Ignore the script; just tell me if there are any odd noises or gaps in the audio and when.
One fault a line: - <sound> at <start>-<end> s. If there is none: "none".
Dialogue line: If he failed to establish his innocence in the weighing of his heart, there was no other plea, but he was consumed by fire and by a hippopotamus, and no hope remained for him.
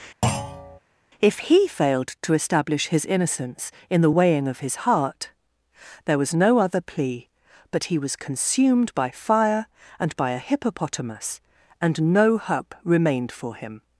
- thud at 0.2-0.8 s